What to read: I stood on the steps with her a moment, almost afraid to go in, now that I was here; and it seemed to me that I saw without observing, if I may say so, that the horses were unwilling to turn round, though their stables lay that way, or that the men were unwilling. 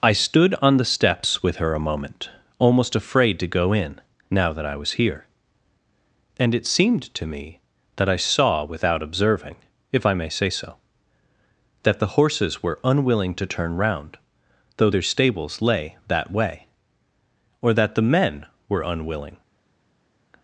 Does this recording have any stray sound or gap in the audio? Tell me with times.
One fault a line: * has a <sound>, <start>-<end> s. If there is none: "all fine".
all fine